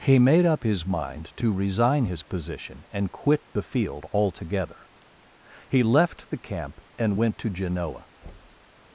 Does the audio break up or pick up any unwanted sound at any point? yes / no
yes